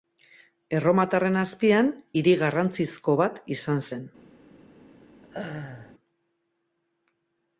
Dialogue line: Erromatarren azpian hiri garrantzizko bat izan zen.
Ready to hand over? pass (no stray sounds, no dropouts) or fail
fail